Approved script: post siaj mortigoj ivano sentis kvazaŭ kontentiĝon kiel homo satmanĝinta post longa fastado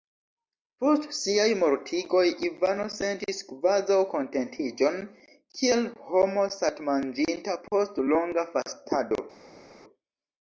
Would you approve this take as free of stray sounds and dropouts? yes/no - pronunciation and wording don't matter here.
yes